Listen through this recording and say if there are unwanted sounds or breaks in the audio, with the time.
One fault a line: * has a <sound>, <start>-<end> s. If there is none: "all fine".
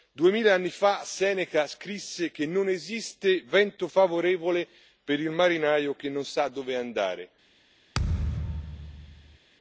* has a thud, 7.9-9.4 s